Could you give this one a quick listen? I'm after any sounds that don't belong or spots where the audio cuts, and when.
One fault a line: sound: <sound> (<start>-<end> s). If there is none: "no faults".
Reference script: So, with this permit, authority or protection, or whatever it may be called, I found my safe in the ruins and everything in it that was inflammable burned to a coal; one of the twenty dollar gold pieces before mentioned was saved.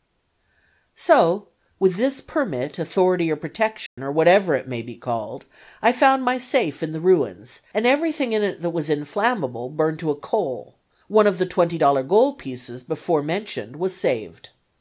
sound: dropout (3.9-4.0 s)